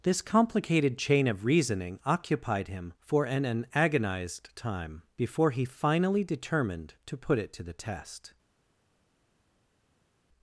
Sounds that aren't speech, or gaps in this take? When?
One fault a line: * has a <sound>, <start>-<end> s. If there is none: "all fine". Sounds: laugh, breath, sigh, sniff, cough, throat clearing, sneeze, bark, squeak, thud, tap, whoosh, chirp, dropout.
all fine